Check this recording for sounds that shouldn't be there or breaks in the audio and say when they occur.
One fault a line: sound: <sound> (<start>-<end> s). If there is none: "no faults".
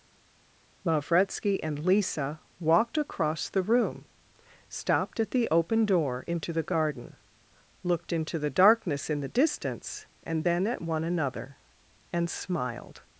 no faults